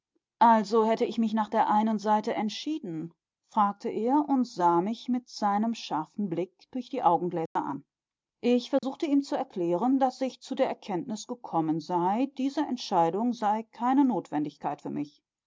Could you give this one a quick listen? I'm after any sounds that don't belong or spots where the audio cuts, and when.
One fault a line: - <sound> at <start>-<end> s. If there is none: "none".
- dropout at 7.5-7.6 s
- dropout at 8.8-8.8 s